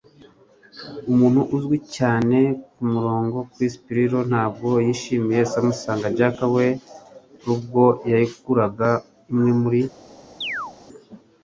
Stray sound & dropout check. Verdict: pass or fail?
fail